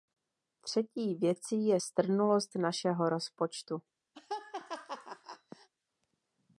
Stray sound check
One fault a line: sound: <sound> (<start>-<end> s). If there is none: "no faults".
sound: laugh (4.1-5.7 s)